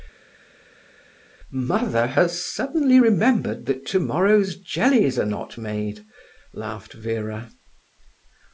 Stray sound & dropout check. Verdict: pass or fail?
pass